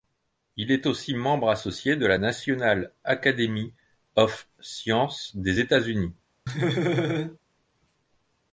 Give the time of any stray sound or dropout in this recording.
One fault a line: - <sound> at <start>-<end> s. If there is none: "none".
- laugh at 6.5-7.4 s